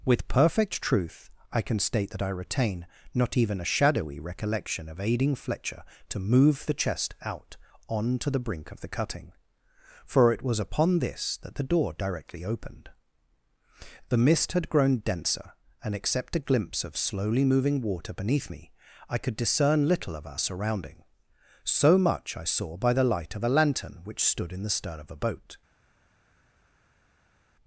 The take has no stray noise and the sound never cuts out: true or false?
true